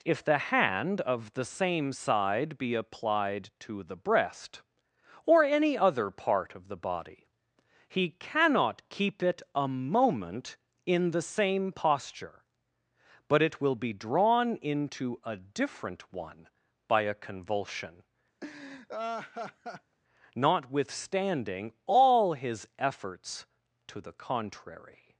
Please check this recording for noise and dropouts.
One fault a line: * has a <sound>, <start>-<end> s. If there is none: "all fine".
* has a laugh, 18.4-20.0 s